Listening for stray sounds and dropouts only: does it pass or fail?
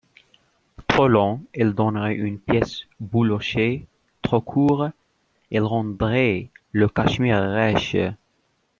pass